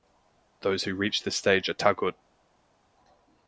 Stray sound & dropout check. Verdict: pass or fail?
pass